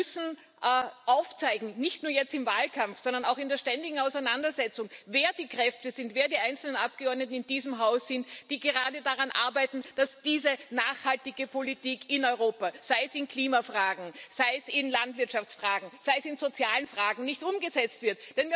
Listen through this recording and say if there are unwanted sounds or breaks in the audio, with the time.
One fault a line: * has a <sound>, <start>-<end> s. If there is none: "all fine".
all fine